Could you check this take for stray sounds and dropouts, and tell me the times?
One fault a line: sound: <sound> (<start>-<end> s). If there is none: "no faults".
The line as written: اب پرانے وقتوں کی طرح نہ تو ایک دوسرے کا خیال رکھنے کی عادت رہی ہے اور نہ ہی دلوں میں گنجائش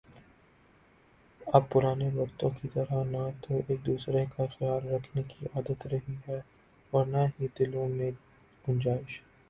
no faults